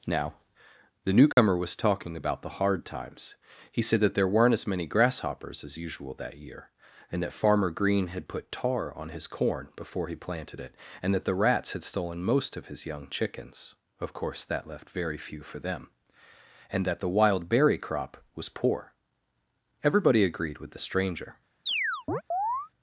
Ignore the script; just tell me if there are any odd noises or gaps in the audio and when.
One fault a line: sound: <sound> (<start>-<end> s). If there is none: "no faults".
sound: dropout (1.3-1.4 s)
sound: chirp (21.7-22.7 s)